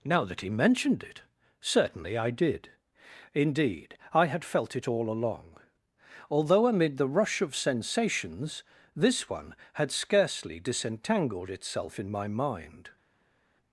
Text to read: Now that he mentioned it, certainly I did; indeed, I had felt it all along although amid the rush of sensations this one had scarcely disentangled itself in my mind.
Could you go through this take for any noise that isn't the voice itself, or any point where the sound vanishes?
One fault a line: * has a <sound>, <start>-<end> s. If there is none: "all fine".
all fine